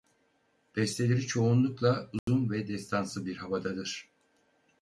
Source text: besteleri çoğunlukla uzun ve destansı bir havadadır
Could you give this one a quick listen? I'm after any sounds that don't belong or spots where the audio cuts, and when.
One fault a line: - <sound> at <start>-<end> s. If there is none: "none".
- dropout at 2.2-2.3 s